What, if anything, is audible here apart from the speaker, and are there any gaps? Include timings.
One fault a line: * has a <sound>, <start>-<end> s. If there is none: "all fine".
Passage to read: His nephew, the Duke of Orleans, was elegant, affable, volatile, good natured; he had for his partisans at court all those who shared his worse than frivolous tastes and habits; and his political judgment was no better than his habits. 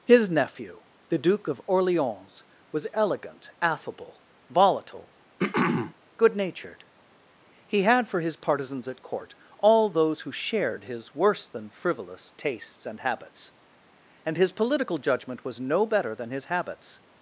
* has a throat clearing, 5.4-5.9 s